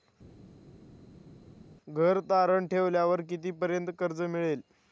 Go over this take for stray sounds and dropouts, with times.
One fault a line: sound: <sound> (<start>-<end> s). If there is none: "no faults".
no faults